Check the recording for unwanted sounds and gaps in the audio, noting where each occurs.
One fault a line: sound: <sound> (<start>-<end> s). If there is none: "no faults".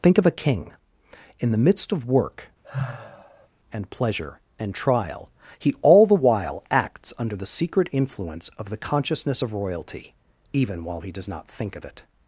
sound: sigh (2.6-3.5 s)